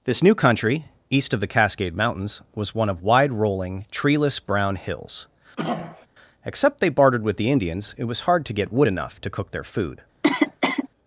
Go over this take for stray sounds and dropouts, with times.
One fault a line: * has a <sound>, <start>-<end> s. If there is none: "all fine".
* has a throat clearing, 5.6-6.1 s
* has a cough, 10.2-10.9 s